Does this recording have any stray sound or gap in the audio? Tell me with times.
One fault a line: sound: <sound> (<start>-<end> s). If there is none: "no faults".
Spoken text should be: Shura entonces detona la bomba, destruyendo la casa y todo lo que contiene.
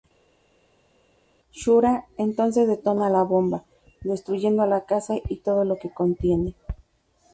no faults